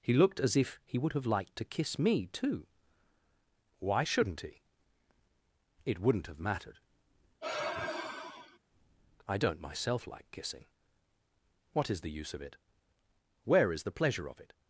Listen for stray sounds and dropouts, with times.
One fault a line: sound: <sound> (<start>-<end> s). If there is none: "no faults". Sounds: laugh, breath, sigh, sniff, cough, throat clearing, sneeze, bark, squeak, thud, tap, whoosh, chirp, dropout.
sound: sigh (7.4-8.6 s)